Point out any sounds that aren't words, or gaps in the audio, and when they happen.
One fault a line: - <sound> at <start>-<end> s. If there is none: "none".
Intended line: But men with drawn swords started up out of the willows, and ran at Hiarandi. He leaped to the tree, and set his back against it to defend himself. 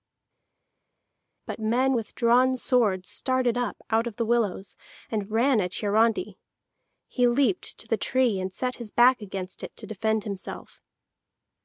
none